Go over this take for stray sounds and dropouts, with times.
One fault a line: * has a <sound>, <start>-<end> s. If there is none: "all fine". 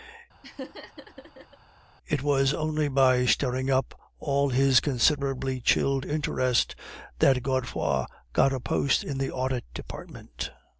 * has a laugh, 0.4-1.6 s